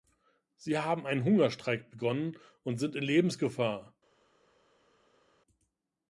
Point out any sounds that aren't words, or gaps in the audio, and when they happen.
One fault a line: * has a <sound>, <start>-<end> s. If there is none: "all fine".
all fine